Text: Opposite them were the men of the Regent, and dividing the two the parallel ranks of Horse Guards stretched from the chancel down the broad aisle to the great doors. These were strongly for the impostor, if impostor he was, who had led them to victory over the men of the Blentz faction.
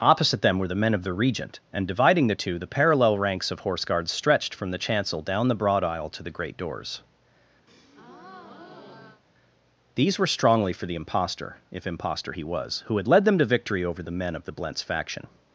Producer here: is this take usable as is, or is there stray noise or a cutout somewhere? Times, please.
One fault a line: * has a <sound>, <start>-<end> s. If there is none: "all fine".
* has a breath, 7.7-9.2 s